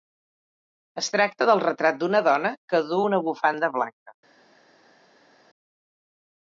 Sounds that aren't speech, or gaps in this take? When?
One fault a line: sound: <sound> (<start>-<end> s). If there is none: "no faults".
no faults